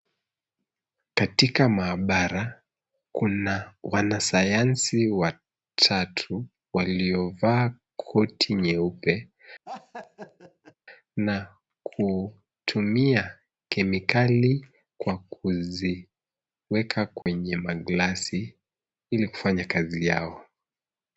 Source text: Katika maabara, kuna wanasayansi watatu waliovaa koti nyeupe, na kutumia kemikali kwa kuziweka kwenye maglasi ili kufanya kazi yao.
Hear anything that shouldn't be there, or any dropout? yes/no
yes